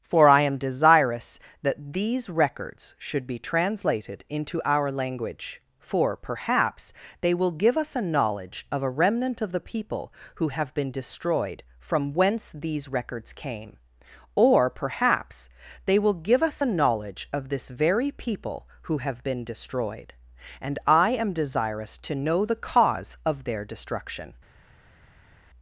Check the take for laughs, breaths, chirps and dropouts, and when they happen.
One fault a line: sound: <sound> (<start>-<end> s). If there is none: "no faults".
no faults